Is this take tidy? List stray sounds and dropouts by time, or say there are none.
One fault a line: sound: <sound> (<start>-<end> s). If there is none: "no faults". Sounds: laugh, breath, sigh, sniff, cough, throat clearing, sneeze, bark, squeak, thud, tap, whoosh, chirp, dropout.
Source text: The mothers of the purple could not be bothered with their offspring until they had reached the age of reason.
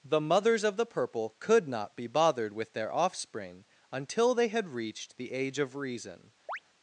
sound: chirp (6.5-6.6 s)